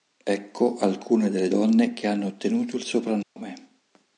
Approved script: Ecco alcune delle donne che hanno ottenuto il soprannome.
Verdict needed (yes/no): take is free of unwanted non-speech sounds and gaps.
no